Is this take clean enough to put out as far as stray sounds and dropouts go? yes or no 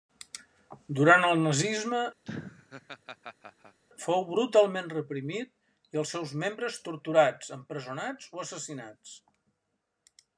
no